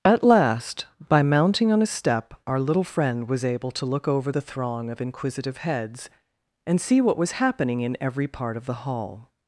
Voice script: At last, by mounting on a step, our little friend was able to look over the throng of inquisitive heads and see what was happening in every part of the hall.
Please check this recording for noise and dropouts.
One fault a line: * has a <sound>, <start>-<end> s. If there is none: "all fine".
all fine